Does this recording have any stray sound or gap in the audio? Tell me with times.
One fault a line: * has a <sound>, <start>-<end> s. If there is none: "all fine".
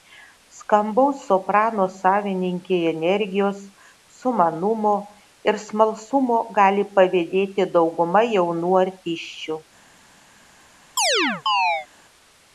* has a chirp, 11.0-11.9 s